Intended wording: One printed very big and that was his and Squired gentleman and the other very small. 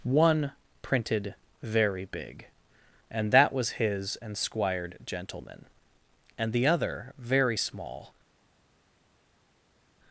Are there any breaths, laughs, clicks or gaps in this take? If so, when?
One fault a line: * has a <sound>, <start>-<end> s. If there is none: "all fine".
all fine